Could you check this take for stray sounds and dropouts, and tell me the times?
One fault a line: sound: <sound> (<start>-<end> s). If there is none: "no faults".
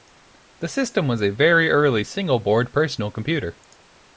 no faults